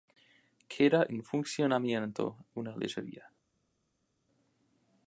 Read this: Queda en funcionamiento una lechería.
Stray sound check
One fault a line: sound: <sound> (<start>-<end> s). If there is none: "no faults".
no faults